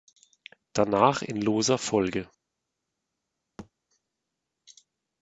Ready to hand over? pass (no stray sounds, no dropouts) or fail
fail